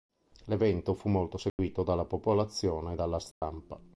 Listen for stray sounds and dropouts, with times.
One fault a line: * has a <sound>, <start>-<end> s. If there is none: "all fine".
* has a dropout, 1.5-1.6 s
* has a dropout, 3.3-3.4 s